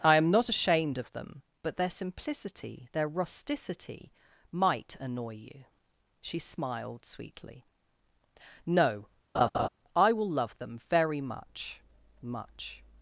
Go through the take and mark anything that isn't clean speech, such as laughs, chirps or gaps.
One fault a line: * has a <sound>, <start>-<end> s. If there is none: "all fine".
* has a laugh, 9.3-9.7 s